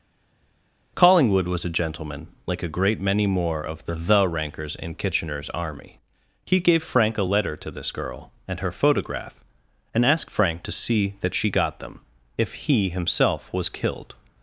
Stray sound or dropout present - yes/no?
no